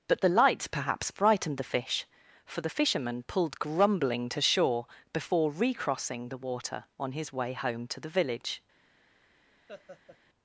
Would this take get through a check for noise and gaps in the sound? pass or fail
fail